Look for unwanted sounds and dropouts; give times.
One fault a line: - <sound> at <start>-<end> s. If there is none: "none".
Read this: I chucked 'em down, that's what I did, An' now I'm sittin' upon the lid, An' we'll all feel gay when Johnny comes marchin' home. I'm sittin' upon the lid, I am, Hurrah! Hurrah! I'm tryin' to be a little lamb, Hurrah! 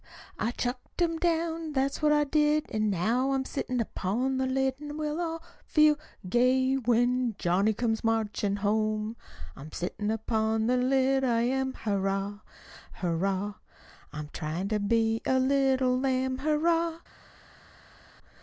none